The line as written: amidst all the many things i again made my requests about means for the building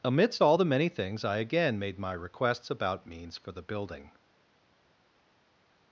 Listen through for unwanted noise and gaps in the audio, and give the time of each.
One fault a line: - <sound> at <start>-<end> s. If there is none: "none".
none